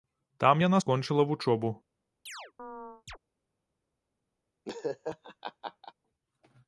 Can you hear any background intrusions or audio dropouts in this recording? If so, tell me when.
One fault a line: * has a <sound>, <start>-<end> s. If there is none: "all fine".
* has a chirp, 2.3-3.2 s
* has a laugh, 4.6-5.9 s